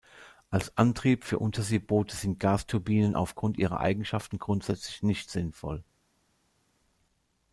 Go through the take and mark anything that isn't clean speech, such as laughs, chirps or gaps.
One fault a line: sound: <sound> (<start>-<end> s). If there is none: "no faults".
no faults